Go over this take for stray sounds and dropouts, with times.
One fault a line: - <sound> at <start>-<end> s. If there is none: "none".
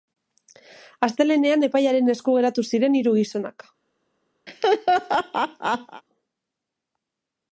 - laugh at 4.5-6.0 s